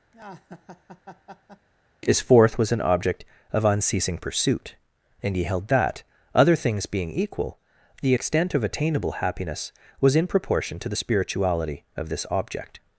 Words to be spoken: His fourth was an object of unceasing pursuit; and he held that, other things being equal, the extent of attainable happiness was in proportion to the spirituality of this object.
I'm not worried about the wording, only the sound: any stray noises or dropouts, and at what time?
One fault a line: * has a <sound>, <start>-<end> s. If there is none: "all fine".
* has a laugh, 0.1-1.7 s